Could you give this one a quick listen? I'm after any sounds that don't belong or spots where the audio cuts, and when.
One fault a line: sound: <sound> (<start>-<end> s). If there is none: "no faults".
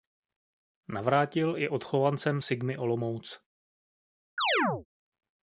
sound: chirp (4.4-4.9 s)